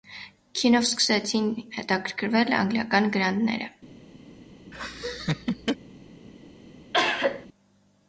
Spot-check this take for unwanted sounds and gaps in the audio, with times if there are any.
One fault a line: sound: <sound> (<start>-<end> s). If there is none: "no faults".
sound: laugh (4.7-5.8 s)
sound: cough (6.9-7.5 s)